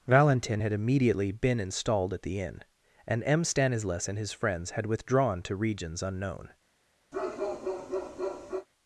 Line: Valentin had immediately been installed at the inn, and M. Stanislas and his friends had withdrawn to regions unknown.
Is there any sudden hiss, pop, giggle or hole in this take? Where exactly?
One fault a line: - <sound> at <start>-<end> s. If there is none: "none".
- bark at 7.1-8.7 s